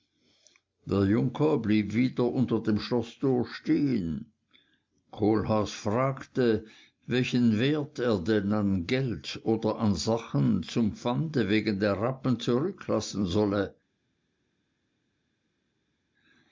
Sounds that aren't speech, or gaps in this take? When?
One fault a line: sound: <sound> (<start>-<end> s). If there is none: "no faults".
no faults